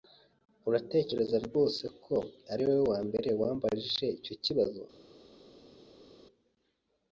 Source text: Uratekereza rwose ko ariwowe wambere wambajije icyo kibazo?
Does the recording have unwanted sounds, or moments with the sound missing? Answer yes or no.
no